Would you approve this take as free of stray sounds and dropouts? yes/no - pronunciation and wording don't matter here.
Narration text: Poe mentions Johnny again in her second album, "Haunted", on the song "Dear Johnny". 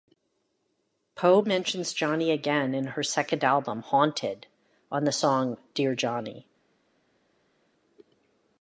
yes